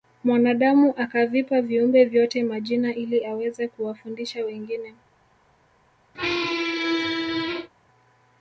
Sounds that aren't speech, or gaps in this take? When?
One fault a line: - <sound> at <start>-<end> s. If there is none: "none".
- squeak at 6.1-7.7 s